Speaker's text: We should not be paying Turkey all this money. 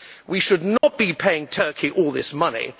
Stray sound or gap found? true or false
true